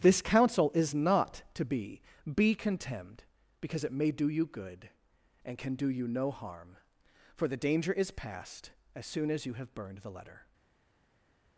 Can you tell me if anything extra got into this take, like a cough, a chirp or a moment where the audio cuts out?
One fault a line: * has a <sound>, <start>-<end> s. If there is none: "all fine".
all fine